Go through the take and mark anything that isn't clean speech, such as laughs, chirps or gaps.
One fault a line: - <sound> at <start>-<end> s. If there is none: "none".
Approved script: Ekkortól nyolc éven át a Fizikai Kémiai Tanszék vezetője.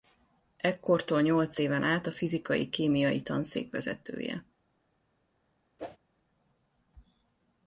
- whoosh at 5.8-6.0 s